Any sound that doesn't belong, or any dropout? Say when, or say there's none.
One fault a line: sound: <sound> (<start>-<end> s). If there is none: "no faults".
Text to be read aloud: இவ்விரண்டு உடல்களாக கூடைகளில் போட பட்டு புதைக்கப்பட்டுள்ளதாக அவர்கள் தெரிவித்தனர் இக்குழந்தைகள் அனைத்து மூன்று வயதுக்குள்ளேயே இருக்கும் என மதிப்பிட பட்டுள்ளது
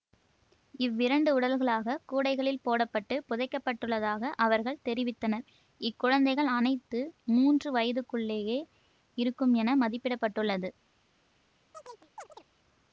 sound: chirp (11.7-12.4 s)